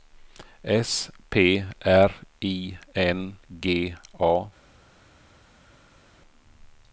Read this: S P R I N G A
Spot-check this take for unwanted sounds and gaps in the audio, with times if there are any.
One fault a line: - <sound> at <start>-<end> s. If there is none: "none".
none